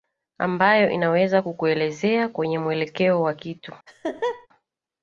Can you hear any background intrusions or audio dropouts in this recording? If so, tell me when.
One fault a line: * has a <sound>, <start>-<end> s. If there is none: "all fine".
* has a laugh, 3.9-4.5 s